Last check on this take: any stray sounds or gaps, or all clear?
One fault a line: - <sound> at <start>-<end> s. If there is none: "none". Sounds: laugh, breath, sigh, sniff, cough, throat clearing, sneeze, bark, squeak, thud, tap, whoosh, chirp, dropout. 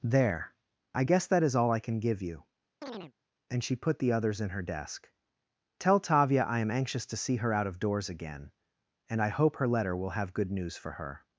- chirp at 2.8-3.1 s